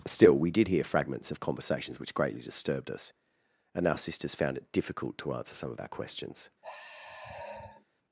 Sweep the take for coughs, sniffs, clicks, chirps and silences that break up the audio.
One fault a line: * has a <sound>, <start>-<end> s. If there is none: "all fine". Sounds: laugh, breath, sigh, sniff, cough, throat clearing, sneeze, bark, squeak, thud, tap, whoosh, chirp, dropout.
* has a sigh, 6.6-7.8 s